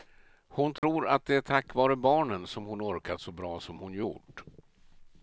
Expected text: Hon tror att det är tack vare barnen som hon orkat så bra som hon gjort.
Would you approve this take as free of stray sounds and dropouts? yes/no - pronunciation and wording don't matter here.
no